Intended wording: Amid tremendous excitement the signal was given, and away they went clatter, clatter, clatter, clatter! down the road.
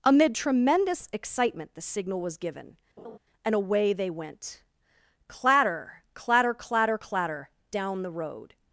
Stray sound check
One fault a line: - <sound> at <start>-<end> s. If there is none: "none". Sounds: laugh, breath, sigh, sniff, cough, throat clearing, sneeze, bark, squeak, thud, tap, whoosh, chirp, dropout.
- laugh at 3.0-3.2 s